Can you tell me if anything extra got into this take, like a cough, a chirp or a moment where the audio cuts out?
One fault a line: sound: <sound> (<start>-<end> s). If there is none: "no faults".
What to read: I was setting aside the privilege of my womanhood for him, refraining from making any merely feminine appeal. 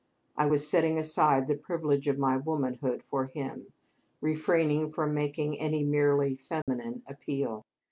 sound: dropout (6.6-6.7 s)